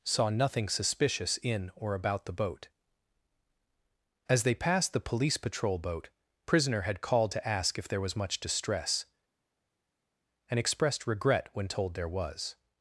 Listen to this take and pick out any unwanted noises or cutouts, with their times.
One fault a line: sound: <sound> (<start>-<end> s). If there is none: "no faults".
no faults